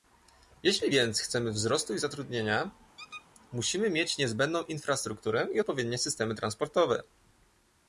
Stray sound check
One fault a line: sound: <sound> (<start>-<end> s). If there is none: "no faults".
sound: squeak (3.0-3.3 s)